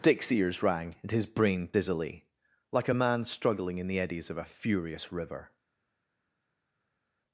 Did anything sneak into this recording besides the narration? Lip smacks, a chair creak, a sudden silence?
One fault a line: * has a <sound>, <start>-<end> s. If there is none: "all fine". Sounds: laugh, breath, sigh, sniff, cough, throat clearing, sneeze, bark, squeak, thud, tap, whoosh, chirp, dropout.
all fine